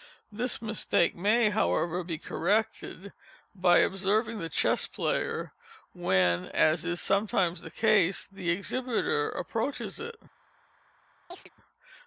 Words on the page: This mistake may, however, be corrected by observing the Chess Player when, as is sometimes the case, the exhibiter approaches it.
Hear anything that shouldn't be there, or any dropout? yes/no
yes